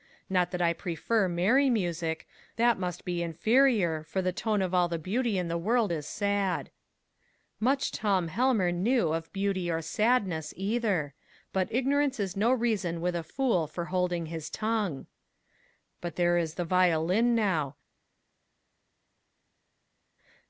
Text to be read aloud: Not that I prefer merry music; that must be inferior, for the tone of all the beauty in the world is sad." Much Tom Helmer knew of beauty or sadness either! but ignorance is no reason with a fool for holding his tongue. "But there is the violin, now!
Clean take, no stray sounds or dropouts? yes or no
yes